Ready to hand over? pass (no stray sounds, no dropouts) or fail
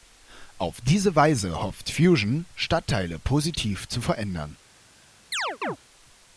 fail